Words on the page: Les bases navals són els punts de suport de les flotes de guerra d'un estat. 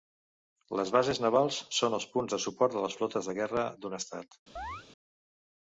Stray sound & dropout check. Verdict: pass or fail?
fail